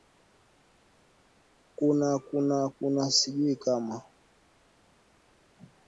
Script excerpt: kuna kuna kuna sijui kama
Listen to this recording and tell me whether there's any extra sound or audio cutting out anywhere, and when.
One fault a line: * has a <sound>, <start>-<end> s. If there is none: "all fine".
all fine